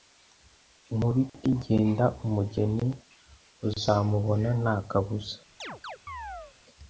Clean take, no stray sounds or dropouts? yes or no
no